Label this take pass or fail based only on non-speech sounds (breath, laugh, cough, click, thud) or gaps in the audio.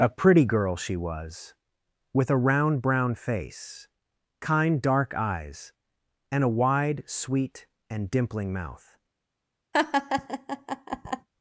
fail